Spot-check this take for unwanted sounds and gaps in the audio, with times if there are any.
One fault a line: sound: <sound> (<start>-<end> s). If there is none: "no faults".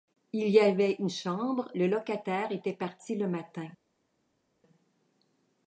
no faults